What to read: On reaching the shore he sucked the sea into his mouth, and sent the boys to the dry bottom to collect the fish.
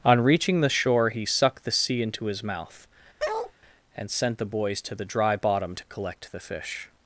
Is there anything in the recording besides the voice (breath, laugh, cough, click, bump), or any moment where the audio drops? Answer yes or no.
yes